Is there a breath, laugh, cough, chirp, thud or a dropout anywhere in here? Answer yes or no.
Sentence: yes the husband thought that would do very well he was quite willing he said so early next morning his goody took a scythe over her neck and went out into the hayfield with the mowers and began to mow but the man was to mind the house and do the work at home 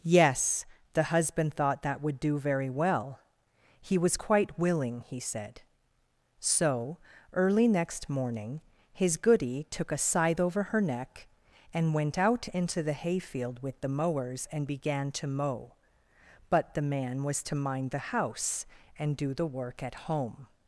no